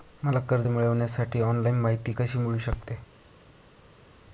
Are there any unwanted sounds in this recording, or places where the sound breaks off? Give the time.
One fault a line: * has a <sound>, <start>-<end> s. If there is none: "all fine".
all fine